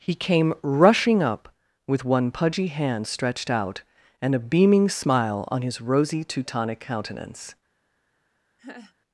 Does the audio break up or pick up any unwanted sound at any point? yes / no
yes